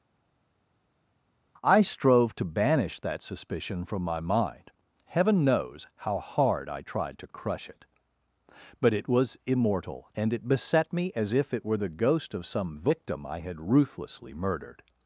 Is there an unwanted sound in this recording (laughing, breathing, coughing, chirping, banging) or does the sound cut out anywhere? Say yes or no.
no